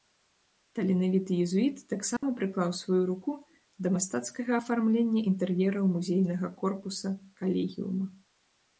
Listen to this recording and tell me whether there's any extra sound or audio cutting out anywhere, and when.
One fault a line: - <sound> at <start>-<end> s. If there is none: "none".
- dropout at 2.2-2.2 s